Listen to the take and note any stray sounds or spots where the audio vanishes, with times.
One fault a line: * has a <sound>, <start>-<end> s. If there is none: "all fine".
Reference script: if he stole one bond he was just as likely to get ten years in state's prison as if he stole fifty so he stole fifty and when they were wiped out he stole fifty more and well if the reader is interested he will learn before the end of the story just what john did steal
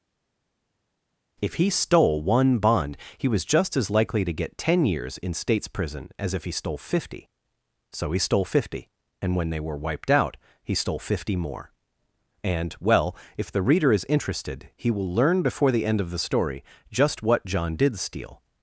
all fine